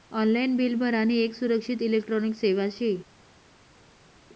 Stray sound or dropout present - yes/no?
no